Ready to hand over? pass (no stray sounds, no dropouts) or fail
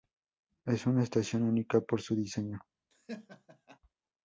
fail